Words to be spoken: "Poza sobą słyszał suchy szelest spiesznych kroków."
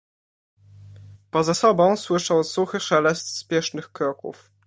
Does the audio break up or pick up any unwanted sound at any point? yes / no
no